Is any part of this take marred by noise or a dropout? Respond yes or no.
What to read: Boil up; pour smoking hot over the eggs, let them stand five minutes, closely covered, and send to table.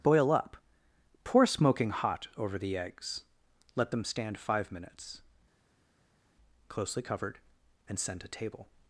no